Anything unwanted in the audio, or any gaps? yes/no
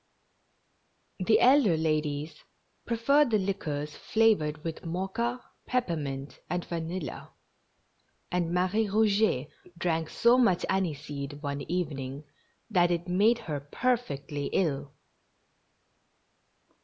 no